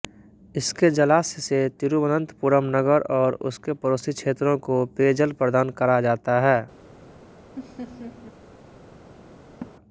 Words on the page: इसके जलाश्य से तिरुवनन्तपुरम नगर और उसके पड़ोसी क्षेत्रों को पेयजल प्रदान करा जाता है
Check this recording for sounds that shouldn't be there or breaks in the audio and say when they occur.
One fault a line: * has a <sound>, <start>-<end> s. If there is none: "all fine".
* has a laugh, 7.6-8.4 s
* has a laugh, 9.6-9.7 s